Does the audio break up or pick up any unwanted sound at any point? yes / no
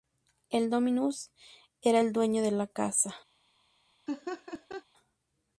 yes